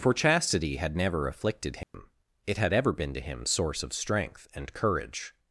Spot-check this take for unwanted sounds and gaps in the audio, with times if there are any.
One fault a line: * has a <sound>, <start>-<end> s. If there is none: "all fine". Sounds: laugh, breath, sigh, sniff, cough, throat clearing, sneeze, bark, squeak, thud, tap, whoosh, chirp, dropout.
* has a dropout, 1.8-1.9 s